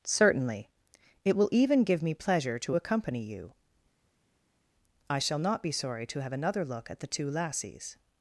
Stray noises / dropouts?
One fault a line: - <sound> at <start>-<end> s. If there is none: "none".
none